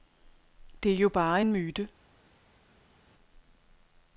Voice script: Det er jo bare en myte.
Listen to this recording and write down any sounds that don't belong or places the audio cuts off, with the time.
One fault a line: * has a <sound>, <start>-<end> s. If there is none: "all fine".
all fine